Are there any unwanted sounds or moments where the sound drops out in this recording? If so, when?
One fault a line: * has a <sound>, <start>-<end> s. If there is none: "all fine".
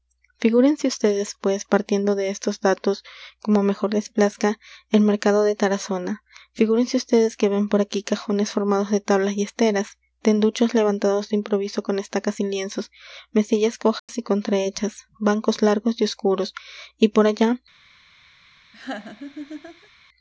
* has a dropout, 14.0-14.1 s
* has a laugh, 18.7-19.9 s